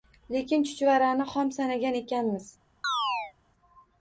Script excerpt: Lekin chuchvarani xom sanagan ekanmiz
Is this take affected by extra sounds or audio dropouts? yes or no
yes